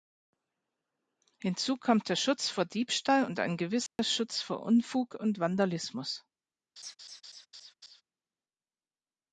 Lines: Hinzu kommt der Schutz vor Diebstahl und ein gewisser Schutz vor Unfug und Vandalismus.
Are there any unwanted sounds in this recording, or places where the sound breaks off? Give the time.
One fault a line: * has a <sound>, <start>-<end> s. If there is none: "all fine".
* has a dropout, 3.9-4.0 s
* has a laugh, 6.8-8.0 s